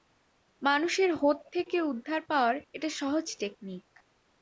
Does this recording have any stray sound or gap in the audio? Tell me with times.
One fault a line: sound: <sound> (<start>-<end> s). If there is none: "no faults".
no faults